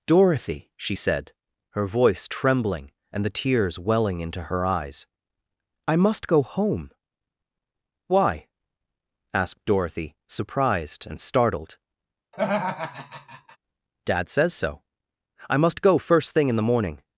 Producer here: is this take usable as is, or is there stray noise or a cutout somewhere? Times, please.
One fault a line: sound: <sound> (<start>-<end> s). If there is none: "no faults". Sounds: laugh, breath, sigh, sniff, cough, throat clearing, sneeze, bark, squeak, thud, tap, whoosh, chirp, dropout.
sound: laugh (12.3-13.6 s)